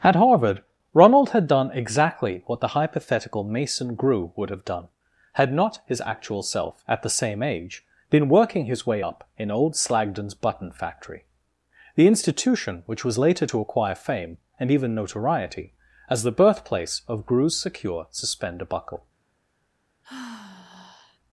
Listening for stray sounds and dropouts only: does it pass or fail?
fail